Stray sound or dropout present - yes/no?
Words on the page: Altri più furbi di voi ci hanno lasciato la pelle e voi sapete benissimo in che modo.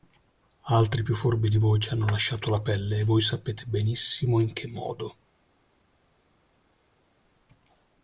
no